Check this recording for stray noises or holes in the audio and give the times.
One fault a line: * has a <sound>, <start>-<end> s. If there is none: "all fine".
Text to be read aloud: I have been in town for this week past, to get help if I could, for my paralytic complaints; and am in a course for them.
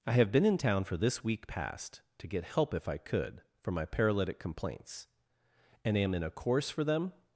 all fine